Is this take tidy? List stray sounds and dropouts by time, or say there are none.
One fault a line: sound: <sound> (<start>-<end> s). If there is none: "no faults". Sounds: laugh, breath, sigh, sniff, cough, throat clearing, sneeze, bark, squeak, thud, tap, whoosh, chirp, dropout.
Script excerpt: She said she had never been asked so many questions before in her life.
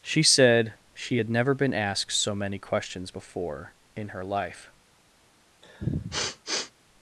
sound: sniff (5.6-6.7 s)